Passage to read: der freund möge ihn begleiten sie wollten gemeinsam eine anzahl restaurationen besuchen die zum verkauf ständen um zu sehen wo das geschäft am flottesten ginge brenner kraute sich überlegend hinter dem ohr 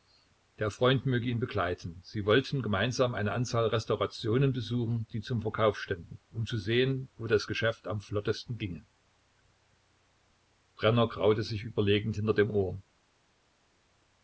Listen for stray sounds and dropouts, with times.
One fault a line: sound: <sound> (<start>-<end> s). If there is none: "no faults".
no faults